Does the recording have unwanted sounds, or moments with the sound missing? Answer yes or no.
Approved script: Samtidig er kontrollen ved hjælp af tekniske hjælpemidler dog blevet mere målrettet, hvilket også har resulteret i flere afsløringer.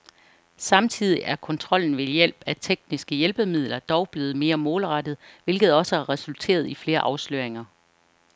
no